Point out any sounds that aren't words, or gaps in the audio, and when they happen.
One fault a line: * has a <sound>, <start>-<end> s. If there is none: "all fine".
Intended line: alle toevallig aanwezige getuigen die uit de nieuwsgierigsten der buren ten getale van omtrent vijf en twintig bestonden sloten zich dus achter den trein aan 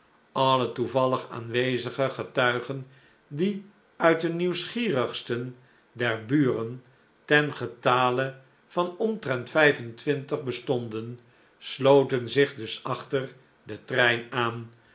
all fine